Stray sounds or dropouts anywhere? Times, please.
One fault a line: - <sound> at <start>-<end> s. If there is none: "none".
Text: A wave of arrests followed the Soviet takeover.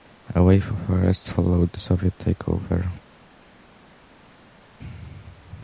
none